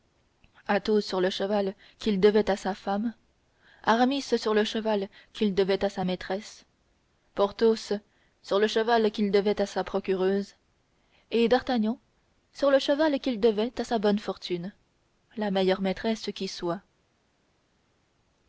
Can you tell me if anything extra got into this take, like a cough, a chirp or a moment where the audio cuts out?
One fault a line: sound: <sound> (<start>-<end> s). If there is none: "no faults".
no faults